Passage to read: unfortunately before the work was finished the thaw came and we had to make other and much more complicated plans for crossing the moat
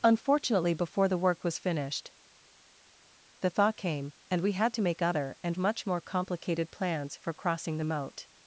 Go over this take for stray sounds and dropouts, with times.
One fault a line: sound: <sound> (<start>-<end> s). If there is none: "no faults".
no faults